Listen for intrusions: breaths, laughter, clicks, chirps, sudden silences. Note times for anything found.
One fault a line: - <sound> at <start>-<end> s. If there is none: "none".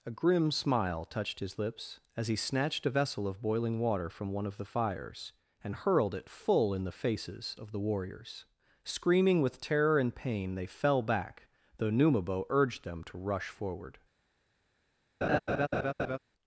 - laugh at 15.2-16.2 s